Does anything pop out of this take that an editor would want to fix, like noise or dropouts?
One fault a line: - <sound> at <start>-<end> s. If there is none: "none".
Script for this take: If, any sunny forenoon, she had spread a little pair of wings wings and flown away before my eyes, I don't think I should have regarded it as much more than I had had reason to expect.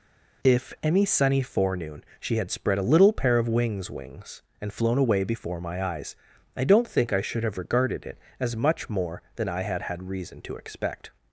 none